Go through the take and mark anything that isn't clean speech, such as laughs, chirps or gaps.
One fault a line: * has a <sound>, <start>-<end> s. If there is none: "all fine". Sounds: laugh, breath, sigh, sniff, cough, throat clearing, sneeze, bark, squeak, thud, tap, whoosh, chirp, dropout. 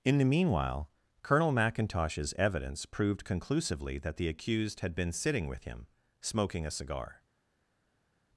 all fine